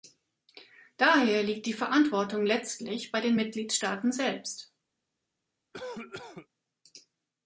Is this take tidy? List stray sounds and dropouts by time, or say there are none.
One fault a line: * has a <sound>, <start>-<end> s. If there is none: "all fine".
* has a cough, 5.7-6.5 s